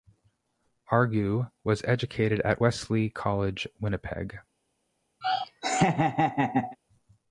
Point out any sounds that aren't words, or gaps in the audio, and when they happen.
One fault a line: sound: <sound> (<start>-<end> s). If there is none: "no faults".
sound: laugh (5.2-6.8 s)